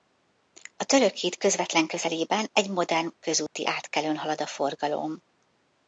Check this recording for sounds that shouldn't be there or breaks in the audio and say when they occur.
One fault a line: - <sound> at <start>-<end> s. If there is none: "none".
- dropout at 3.5-3.6 s